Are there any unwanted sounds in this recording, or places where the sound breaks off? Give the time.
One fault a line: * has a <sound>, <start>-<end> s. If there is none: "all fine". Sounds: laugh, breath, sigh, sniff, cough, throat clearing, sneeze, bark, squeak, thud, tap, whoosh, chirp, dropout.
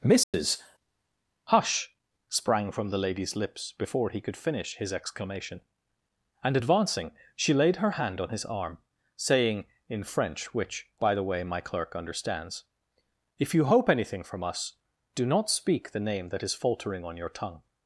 * has a dropout, 0.2-0.3 s